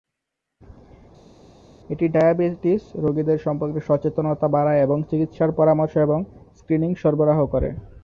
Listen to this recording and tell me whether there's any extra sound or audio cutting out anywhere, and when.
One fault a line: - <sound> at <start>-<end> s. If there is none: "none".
none